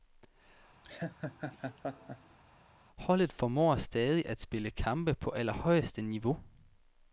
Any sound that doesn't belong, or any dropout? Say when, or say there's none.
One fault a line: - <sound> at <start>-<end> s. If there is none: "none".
- laugh at 0.8-2.4 s